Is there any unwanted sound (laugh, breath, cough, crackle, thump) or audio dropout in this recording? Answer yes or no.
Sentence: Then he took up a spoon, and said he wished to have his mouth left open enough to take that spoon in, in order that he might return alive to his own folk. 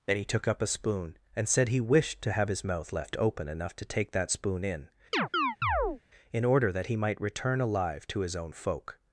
yes